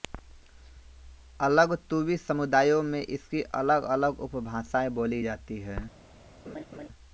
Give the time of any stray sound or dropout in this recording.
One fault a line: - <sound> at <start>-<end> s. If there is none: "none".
- laugh at 6.4-6.9 s